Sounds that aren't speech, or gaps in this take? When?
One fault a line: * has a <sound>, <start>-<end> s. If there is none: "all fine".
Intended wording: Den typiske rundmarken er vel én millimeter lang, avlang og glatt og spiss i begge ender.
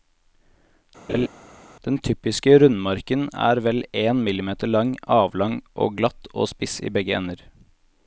* has a laugh, 1.1-1.3 s